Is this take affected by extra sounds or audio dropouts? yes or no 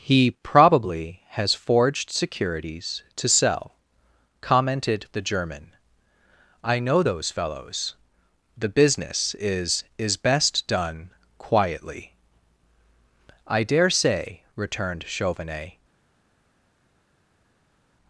no